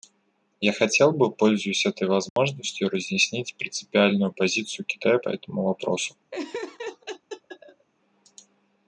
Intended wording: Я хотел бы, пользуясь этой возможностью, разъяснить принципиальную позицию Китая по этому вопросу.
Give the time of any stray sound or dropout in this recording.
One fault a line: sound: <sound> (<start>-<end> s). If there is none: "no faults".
sound: dropout (2.3-2.4 s)
sound: laugh (6.3-7.9 s)